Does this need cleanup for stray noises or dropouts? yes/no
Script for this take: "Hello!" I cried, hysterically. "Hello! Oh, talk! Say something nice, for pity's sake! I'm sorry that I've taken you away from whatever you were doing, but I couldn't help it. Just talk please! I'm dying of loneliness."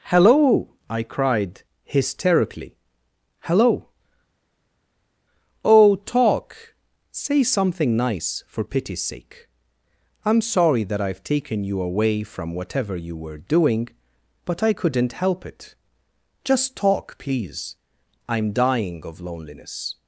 no